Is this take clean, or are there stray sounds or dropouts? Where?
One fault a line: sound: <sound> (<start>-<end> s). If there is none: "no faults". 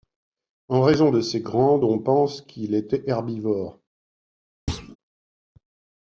sound: thud (4.7-5.0 s)